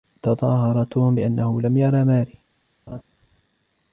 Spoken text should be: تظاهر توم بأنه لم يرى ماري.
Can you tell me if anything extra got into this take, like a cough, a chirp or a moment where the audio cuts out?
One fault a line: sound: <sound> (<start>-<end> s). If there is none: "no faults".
sound: laugh (2.9-3.0 s)